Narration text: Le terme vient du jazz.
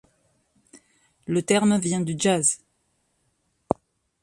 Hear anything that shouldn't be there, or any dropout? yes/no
no